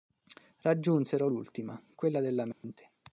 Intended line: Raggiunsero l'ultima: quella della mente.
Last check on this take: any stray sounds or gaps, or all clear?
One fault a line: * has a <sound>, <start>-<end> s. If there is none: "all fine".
* has a dropout, 2.5-2.6 s